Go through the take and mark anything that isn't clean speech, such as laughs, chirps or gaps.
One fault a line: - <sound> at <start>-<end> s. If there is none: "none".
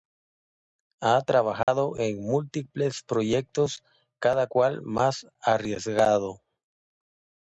- dropout at 1.6-1.7 s